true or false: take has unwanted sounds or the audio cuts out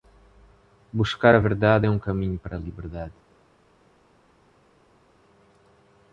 false